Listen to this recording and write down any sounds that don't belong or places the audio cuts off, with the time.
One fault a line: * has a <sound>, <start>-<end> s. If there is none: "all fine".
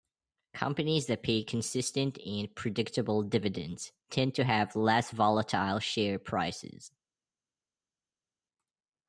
all fine